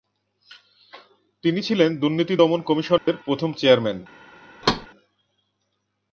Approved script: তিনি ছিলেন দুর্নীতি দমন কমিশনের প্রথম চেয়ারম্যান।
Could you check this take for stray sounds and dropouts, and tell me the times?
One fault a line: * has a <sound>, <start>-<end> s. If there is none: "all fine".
* has a dropout, 3.0-3.1 s
* has a thud, 4.6-4.9 s